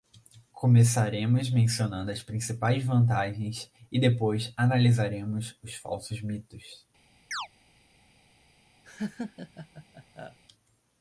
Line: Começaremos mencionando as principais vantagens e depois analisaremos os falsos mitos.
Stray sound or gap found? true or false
true